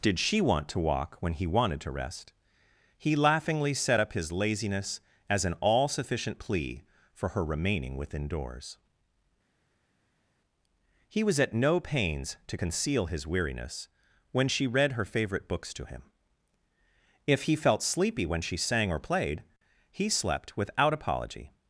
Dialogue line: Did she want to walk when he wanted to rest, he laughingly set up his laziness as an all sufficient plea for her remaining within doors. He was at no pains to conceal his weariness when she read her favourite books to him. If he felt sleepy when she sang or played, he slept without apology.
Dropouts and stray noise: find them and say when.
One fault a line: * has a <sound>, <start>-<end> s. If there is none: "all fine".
all fine